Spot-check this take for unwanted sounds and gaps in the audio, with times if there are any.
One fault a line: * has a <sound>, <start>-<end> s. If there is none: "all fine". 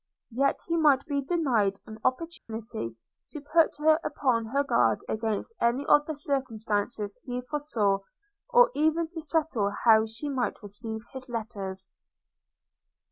* has a dropout, 2.4-2.5 s